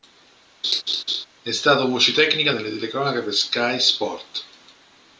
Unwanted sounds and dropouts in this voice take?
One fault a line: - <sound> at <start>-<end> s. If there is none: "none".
- laugh at 0.6-1.3 s